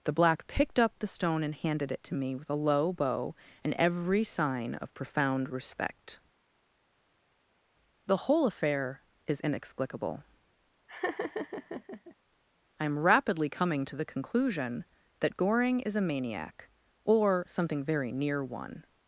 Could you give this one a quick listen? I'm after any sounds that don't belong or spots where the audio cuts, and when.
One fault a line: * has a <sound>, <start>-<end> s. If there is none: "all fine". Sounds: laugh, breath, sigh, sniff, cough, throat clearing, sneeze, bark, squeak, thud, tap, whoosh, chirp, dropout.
* has a laugh, 10.9-12.2 s